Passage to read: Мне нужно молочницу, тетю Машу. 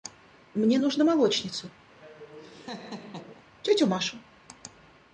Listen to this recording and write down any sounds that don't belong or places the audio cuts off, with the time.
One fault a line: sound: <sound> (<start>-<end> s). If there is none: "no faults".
sound: laugh (1.9-3.4 s)